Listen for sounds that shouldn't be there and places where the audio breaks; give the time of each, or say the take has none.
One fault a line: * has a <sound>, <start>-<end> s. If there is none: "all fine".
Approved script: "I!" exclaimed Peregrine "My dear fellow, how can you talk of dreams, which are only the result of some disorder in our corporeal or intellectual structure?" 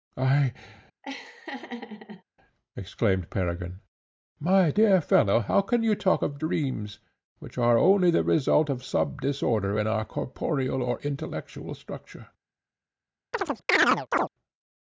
* has a laugh, 1.0-2.2 s
* has a chirp, 13.3-14.3 s